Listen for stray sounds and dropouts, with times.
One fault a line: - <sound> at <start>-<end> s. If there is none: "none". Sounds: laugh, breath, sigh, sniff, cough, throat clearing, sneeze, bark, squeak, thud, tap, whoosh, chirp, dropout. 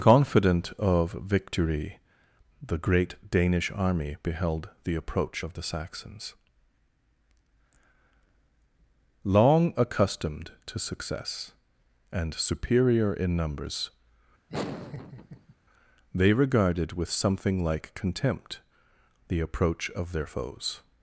- laugh at 14.5-15.5 s